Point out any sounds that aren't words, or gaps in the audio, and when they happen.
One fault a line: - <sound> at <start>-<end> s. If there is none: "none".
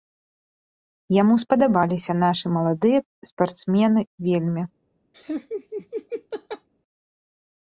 - laugh at 5.1-6.7 s